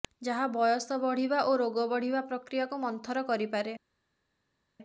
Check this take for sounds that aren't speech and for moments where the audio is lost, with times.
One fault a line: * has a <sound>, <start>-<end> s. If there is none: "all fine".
all fine